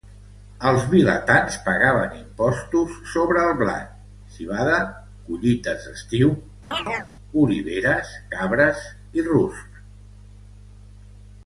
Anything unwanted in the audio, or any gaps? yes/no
yes